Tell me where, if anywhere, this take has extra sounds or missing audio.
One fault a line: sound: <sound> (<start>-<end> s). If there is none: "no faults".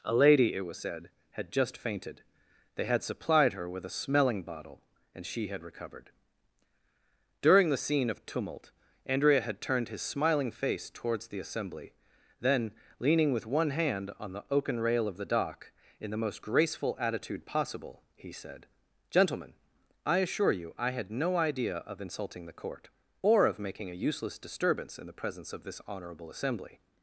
no faults